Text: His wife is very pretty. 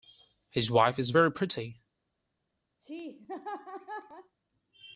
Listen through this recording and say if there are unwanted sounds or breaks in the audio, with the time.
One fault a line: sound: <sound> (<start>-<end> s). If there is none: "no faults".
sound: laugh (2.8-4.3 s)